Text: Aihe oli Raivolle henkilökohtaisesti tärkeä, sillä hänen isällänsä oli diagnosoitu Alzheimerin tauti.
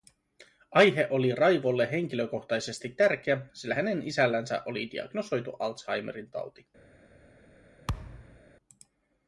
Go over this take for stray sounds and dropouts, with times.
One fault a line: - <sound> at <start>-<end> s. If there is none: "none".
- thud at 7.9-8.4 s